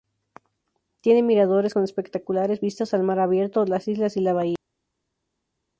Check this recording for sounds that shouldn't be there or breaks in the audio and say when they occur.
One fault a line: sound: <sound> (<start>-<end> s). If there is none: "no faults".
no faults